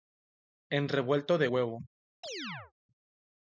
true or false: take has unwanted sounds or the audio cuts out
true